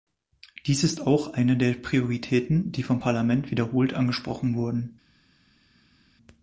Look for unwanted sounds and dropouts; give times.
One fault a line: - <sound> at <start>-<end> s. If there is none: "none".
none